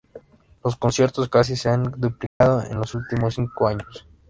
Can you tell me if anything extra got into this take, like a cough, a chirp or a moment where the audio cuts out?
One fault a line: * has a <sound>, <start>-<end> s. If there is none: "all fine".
* has a dropout, 2.3-2.4 s